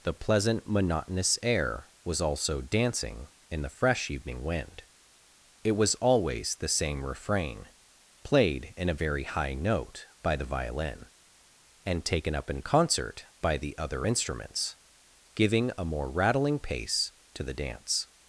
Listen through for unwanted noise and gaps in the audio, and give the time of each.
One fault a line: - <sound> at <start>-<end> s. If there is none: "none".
none